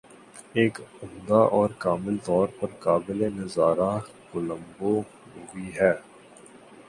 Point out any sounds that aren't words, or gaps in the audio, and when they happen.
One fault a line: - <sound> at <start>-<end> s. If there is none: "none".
none